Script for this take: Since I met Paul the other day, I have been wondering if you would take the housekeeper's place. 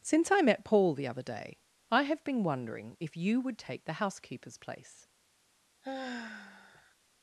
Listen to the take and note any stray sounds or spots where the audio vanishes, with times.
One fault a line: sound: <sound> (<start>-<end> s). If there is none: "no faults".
sound: sigh (5.8-7.0 s)